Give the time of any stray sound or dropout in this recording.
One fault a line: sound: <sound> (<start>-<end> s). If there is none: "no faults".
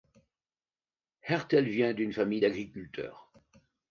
no faults